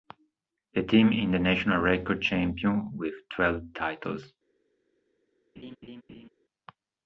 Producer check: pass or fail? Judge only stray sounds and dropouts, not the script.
fail